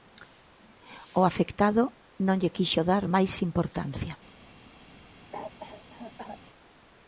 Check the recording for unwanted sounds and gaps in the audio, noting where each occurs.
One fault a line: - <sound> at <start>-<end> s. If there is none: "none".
- cough at 5.3-6.4 s